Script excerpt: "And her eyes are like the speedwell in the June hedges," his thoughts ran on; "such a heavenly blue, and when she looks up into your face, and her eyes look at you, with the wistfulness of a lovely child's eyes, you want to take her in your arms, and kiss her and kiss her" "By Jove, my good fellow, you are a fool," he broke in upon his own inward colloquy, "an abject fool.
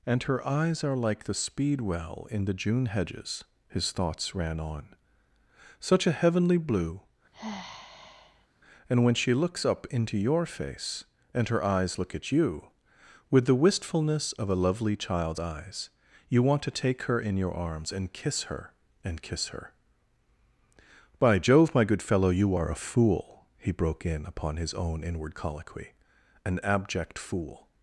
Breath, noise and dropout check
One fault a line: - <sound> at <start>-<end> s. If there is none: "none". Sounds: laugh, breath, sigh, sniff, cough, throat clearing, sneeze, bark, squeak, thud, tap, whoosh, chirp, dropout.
- sigh at 7.3-8.5 s